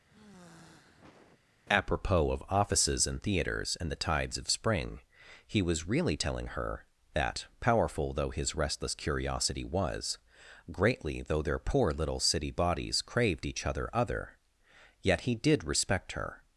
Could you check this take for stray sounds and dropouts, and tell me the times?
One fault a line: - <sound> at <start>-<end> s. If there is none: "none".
- sigh at 0.1-1.4 s